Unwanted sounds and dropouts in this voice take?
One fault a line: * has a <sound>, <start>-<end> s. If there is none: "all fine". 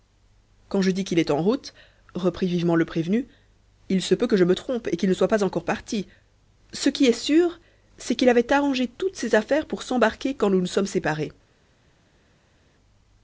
all fine